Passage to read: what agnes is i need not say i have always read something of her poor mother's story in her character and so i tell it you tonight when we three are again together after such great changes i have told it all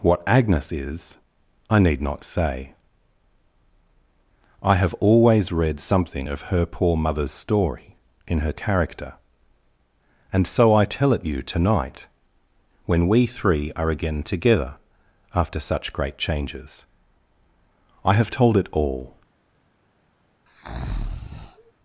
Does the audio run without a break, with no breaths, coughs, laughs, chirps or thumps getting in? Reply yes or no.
no